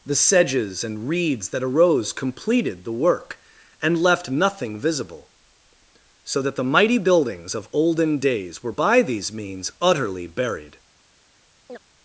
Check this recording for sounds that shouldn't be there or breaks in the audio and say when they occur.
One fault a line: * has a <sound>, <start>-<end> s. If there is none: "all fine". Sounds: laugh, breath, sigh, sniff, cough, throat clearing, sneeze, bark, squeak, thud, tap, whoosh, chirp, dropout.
* has a chirp, 11.7-11.8 s